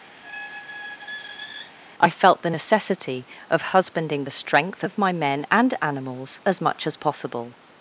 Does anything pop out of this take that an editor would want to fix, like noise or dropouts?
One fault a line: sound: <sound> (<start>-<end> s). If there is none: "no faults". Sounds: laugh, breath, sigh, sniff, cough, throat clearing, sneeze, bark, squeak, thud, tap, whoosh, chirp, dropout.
sound: squeak (0.2-1.7 s)